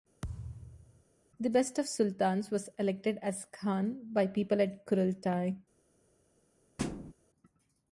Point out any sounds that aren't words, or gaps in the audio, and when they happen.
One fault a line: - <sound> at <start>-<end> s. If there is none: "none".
- thud at 0.2-1.0 s
- thud at 6.8-7.1 s